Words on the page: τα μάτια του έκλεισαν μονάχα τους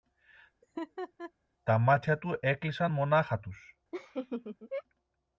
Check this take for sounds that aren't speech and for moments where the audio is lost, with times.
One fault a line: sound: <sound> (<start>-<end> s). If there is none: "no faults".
sound: laugh (0.6-1.3 s)
sound: laugh (3.9-4.8 s)